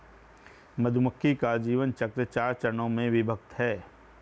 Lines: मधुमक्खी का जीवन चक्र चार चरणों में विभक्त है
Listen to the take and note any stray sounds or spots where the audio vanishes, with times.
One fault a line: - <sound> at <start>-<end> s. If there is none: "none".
none